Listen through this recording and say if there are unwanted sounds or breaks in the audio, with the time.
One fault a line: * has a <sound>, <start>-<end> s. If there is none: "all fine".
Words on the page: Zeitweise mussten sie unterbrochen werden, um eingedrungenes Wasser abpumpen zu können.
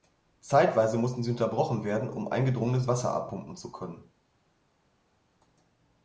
all fine